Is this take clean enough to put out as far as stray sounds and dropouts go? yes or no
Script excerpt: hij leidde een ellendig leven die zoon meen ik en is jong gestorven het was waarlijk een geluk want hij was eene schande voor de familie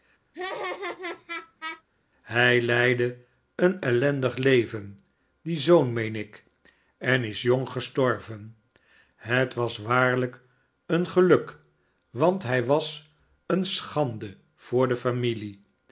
no